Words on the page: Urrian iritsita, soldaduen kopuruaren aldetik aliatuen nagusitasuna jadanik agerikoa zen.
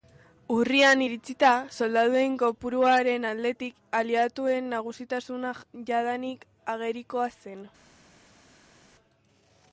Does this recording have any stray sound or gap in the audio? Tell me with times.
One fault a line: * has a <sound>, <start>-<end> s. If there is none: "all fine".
all fine